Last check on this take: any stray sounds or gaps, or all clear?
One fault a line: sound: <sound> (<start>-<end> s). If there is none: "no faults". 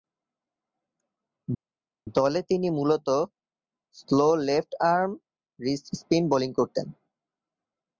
no faults